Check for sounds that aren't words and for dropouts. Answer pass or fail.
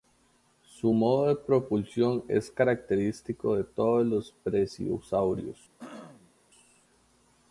fail